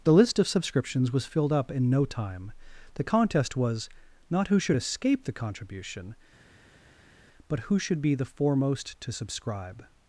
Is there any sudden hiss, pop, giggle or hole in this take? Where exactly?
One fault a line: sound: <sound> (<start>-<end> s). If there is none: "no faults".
no faults